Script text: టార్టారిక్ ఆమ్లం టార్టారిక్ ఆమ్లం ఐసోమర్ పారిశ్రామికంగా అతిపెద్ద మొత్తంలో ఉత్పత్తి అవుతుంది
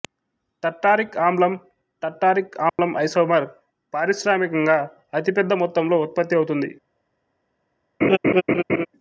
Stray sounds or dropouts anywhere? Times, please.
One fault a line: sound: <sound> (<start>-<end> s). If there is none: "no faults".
sound: dropout (2.7-2.8 s)
sound: laugh (8.0-8.9 s)